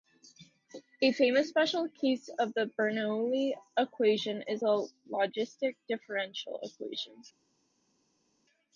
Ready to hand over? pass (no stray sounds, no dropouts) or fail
pass